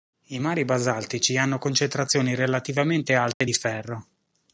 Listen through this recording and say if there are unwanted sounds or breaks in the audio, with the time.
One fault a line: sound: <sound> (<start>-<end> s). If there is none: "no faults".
sound: dropout (3.3-3.4 s)